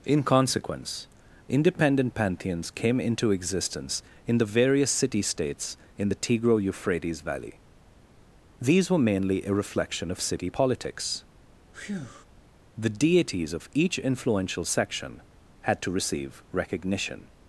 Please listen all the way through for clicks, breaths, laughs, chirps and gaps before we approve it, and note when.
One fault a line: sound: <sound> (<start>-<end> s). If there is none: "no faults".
sound: breath (11.7-12.3 s)